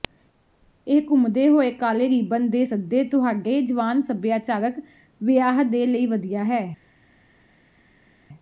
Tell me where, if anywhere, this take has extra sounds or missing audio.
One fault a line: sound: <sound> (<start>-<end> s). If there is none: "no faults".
no faults